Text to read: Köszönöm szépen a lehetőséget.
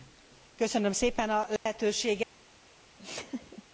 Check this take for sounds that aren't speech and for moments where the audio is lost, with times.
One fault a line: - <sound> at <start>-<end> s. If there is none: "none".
- dropout at 1.6-1.7 s
- laugh at 3.0-3.6 s